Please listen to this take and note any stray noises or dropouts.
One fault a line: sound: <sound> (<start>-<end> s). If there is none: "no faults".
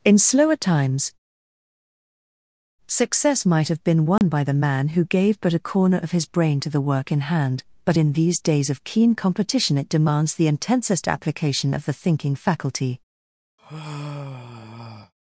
sound: dropout (4.2-4.2 s)
sound: sigh (13.6-15.1 s)